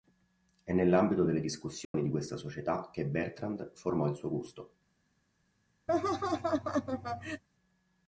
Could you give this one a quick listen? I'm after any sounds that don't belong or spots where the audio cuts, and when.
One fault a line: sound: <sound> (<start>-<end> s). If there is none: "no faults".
sound: dropout (1.8-1.9 s)
sound: laugh (5.9-7.4 s)